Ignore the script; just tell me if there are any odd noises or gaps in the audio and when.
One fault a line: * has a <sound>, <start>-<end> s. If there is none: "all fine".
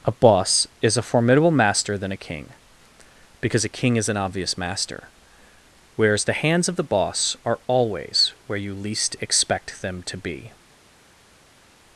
all fine